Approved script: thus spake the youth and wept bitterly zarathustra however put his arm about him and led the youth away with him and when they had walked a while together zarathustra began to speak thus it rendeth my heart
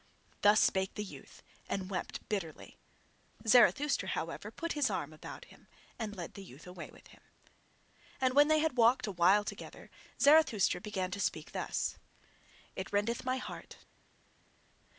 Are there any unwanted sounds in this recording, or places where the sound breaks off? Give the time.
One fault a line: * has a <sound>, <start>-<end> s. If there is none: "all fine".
all fine